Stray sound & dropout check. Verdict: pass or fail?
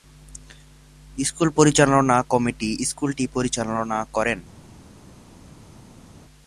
pass